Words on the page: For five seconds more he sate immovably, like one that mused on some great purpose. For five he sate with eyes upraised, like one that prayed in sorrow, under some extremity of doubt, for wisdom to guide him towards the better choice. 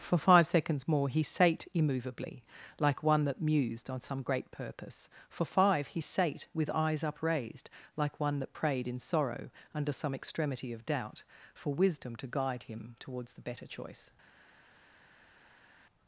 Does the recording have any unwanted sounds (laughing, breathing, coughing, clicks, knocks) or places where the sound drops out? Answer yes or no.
no